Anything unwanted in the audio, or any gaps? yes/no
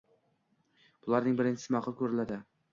no